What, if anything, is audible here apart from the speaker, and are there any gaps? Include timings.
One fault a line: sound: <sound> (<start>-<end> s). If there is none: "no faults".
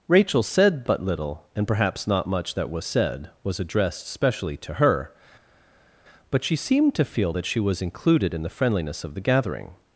no faults